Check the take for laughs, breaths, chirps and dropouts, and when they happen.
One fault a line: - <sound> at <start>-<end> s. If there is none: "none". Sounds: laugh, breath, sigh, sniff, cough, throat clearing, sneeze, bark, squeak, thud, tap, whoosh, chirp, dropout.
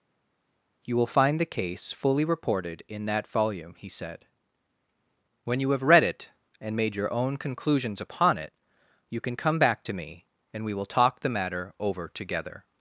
none